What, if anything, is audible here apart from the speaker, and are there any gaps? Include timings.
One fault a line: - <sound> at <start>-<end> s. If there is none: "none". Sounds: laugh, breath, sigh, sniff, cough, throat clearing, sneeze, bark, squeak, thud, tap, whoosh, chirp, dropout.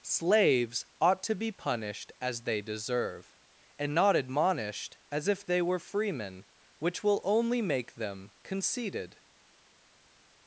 none